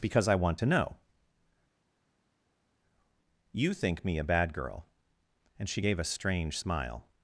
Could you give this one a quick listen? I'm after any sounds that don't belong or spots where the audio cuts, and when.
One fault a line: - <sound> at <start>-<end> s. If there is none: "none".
none